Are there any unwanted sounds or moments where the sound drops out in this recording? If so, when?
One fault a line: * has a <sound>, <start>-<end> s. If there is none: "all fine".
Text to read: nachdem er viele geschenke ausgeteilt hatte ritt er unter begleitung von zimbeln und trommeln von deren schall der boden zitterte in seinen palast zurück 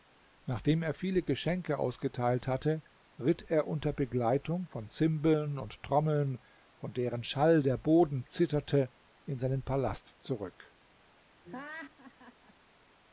* has a laugh, 11.4-12.5 s